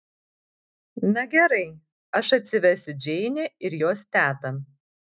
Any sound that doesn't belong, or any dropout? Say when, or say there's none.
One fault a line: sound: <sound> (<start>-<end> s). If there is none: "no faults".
no faults